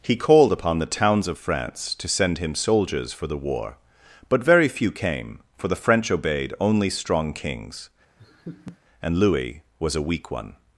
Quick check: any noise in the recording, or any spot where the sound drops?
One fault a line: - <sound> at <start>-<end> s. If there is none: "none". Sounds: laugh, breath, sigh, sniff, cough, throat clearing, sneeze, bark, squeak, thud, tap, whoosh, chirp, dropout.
- laugh at 8.2-8.8 s